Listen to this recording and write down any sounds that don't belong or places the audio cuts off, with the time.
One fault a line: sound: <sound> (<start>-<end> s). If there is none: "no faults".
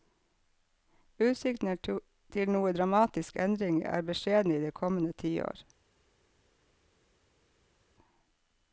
no faults